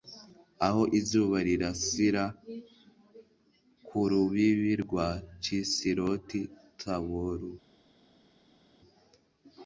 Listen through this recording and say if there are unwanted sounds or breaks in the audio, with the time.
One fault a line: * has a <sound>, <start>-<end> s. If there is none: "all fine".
all fine